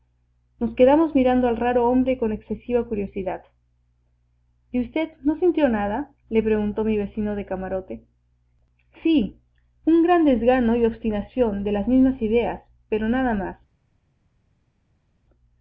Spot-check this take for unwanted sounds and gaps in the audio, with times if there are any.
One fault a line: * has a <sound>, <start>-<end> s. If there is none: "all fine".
all fine